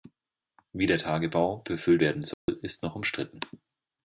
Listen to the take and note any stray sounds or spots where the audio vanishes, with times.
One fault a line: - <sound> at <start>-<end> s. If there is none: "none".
- dropout at 2.3-2.5 s